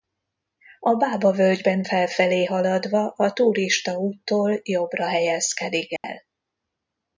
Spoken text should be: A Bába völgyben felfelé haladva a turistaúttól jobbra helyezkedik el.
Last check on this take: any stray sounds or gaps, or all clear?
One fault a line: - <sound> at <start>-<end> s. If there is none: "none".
- dropout at 6.0-6.0 s